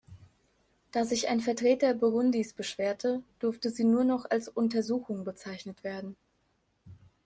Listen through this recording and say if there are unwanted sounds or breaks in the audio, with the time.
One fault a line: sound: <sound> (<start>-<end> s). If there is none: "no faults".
no faults